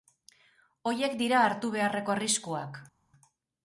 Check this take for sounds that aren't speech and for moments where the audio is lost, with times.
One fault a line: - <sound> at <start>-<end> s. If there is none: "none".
none